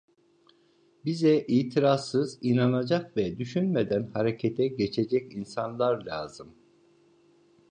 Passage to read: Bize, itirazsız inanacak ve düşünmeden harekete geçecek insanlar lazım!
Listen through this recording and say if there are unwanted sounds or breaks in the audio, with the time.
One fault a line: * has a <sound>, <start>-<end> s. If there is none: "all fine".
all fine